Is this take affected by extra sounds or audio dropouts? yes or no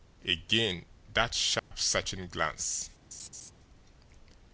yes